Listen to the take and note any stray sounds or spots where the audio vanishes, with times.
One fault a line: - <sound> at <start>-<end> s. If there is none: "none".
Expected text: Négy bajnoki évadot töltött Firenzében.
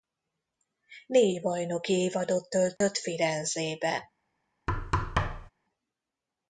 - dropout at 2.8-2.8 s
- thud at 4.7-5.5 s